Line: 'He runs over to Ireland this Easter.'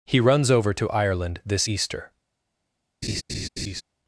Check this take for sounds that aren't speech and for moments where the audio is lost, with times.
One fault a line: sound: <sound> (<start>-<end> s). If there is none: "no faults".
sound: laugh (3.0-3.8 s)